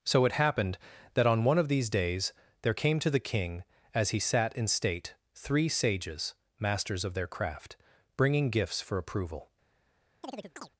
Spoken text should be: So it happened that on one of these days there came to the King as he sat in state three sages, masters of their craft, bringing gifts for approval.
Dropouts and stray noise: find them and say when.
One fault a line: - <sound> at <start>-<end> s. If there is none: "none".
- chirp at 10.2-10.7 s